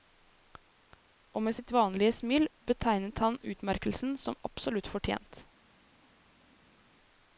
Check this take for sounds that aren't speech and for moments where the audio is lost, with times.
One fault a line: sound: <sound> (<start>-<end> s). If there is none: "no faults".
no faults